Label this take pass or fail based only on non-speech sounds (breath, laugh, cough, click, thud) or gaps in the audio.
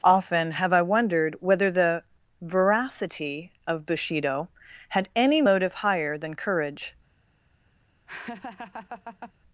fail